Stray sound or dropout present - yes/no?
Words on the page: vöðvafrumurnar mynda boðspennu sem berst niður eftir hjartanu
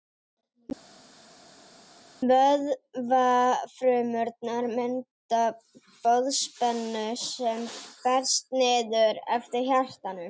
no